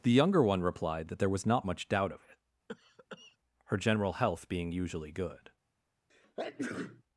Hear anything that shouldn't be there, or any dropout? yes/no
yes